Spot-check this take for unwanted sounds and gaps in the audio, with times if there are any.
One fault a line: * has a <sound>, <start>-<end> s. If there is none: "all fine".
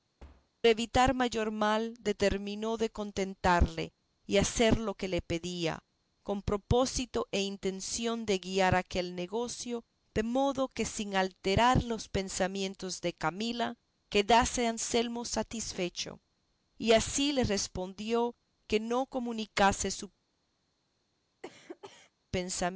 * has a thud, 0.2-0.5 s
* has a cough, 21.4-22.1 s